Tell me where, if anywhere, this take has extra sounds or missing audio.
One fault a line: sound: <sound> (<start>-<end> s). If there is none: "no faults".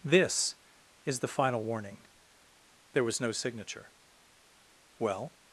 no faults